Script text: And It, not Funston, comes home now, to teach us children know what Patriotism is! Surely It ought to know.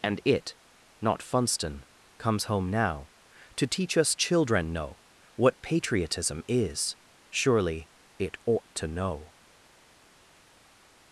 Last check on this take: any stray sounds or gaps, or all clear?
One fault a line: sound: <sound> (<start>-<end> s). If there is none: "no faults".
no faults